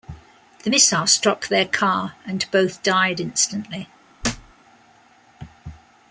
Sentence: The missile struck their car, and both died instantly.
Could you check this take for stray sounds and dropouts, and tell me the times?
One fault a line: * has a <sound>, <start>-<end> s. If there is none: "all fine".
* has a thud, 4.2-4.5 s